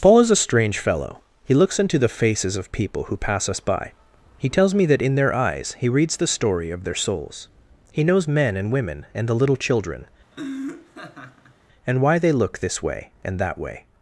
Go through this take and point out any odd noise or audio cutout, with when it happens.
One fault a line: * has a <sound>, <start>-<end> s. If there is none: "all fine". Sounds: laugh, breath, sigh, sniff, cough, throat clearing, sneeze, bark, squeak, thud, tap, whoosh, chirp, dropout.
* has a laugh, 10.3-11.6 s